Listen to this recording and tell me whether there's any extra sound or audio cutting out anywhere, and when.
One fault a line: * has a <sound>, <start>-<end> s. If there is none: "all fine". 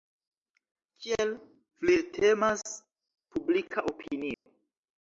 * has a dropout, 4.3-4.5 s